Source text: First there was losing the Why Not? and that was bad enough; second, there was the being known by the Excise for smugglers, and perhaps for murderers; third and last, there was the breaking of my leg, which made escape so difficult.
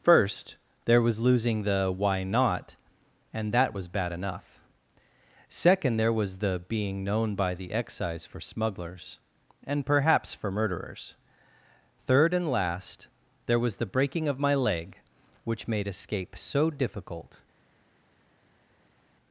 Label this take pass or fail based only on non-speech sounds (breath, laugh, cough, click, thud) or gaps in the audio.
pass